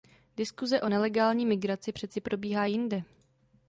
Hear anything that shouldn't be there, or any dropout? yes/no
no